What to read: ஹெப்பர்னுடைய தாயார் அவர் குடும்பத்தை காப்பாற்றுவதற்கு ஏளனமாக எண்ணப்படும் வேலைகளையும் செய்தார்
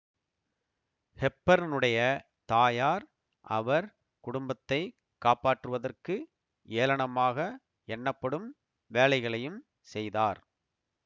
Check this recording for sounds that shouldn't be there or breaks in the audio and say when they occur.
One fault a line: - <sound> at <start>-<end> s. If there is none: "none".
none